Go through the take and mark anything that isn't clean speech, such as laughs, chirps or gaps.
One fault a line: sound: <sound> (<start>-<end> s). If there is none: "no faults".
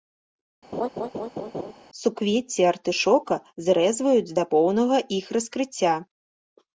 sound: laugh (0.7-1.7 s)